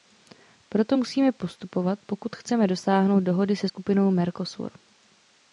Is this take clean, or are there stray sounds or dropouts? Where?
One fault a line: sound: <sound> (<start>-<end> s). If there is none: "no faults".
no faults